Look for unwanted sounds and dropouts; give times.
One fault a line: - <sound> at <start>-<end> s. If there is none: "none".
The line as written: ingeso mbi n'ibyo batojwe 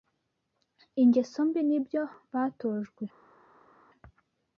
none